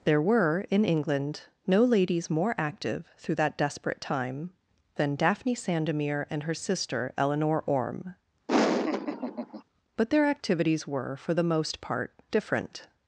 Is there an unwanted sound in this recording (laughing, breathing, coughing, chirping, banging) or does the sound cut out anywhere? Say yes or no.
yes